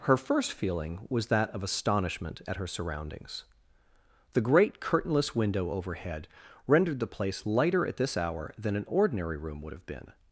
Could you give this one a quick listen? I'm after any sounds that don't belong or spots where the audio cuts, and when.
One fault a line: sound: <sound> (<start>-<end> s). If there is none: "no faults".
no faults